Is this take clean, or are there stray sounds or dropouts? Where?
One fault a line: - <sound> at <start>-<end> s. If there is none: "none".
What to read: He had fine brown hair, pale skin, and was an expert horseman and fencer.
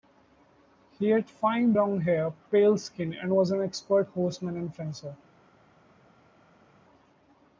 none